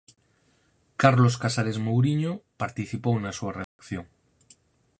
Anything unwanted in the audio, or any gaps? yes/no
yes